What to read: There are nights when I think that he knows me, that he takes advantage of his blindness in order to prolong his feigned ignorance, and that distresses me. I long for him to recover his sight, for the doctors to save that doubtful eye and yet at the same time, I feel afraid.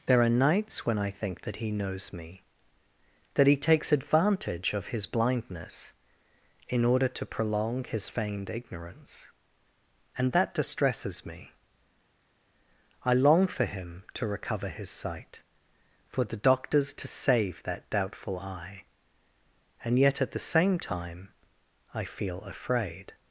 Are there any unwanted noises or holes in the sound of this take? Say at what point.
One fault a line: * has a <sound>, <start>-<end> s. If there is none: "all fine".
all fine